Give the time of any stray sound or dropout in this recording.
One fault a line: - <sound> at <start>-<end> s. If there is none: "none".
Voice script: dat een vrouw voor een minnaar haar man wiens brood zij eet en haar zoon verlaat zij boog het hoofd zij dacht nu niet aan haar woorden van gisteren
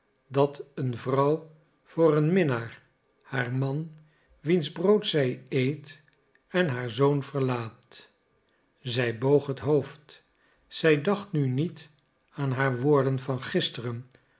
none